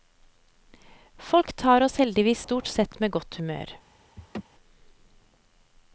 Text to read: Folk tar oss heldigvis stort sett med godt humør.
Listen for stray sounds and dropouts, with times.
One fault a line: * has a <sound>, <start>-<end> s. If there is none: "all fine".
* has a laugh, 4.2-4.4 s